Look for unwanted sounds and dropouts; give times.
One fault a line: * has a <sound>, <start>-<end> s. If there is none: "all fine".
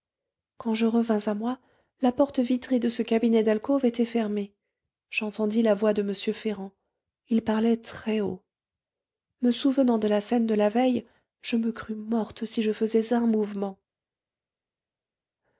all fine